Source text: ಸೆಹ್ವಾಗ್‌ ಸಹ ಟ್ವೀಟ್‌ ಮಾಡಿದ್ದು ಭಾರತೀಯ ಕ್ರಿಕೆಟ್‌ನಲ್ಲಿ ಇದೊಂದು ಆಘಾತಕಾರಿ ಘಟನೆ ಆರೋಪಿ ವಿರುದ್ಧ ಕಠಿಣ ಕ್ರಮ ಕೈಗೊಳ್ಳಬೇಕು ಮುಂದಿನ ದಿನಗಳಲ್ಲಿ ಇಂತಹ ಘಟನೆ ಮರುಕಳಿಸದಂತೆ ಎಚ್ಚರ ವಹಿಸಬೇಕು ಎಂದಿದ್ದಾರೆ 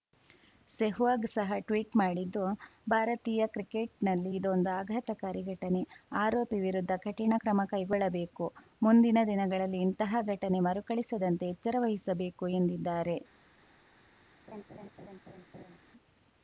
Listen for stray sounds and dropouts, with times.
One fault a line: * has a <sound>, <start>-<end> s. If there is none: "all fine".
* has a laugh, 14.5-15.8 s